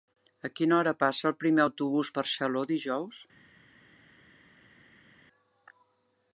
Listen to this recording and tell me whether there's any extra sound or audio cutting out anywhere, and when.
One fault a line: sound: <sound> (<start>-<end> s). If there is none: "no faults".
no faults